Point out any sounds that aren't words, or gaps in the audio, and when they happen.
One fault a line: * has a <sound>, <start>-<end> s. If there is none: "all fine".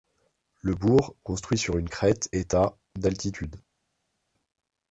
all fine